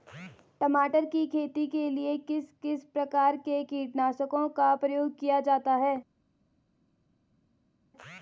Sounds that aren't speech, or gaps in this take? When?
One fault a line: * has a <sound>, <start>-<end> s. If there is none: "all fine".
all fine